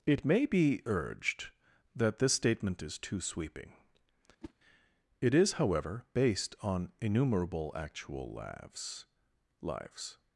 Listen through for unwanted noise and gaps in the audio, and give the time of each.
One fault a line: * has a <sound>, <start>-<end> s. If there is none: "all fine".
* has a whoosh, 4.4-4.5 s